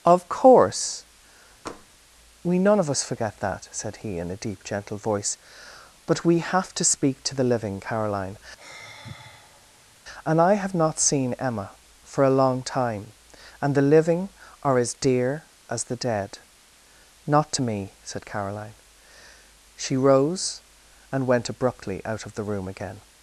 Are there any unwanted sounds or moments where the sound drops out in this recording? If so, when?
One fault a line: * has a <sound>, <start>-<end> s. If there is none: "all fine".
* has a tap, 1.7-1.9 s
* has a sigh, 8.6-9.9 s